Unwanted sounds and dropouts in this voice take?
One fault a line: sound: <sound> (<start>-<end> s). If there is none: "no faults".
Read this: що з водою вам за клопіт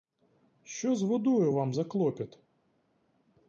no faults